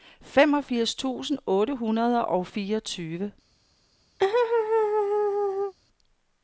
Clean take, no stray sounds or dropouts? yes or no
no